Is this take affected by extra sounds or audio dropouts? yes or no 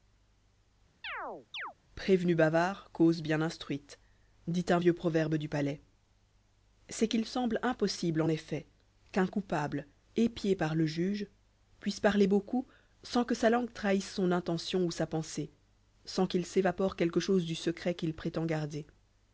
yes